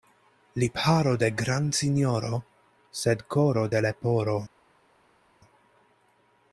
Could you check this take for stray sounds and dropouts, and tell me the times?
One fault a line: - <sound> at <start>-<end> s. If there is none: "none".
none